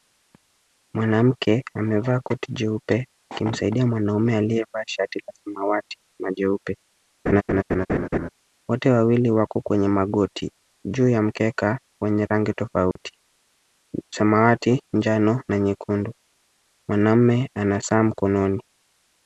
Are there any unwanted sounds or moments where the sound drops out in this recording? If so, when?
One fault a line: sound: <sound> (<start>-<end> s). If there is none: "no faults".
sound: laugh (7.3-8.3 s)
sound: dropout (12.9-13.0 s)